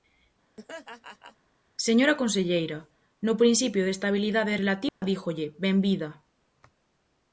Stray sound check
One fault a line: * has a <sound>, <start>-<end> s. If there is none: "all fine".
* has a laugh, 0.6-1.4 s
* has a dropout, 4.9-5.0 s